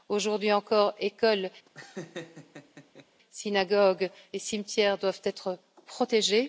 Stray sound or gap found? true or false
true